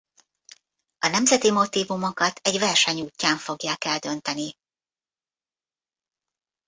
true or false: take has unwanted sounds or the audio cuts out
false